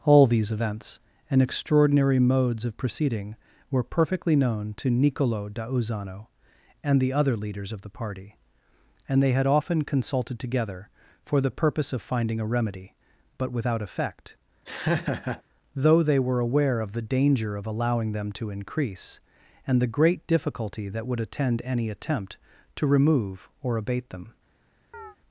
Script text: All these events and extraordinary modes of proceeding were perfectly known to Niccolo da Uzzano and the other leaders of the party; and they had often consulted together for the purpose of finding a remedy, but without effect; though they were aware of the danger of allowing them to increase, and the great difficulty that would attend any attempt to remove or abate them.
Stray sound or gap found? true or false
true